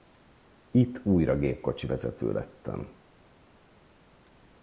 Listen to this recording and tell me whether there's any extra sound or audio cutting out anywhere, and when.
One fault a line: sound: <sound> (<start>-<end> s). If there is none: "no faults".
no faults